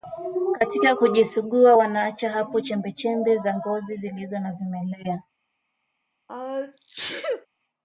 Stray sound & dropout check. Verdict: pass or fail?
fail